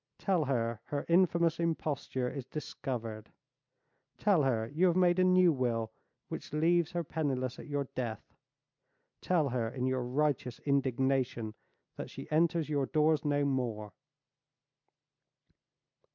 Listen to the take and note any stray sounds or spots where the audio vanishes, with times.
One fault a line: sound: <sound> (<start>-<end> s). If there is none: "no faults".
no faults